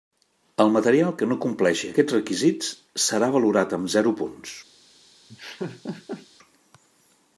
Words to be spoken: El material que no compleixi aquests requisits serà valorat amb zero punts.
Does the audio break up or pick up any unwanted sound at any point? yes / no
yes